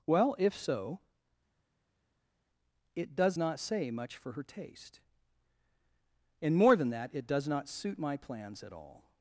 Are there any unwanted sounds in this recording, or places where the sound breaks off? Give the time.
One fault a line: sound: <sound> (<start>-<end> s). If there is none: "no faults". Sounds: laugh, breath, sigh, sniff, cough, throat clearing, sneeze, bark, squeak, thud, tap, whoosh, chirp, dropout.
no faults